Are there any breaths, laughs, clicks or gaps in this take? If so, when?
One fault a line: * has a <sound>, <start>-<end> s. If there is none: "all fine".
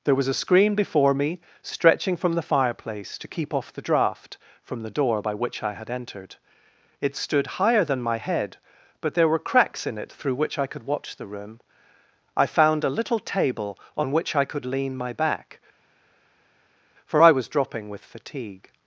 all fine